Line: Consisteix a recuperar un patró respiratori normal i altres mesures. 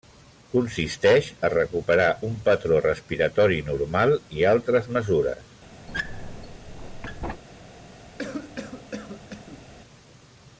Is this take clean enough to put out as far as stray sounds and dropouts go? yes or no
no